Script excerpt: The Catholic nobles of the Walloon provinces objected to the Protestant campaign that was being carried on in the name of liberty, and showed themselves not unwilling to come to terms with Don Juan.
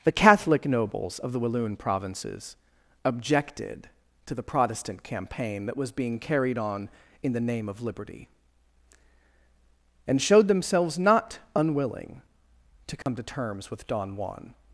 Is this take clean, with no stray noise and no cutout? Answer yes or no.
no